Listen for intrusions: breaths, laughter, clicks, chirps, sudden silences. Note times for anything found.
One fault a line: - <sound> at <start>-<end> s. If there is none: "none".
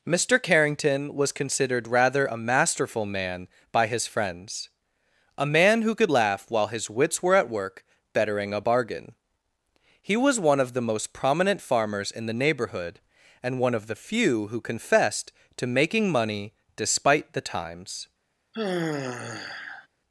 - sigh at 18.5-19.9 s